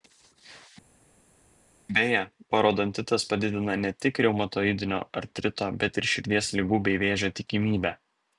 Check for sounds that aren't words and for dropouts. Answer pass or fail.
pass